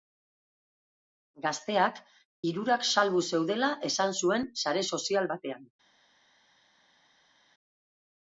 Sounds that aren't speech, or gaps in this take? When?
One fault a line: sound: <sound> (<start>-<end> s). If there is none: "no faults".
no faults